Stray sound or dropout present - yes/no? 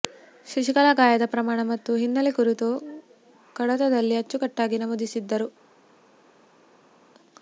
no